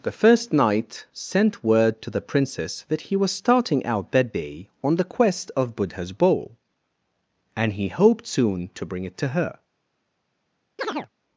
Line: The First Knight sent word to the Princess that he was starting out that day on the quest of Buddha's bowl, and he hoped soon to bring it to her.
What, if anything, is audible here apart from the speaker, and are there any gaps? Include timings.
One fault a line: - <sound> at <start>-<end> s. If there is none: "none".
- chirp at 10.8-11.1 s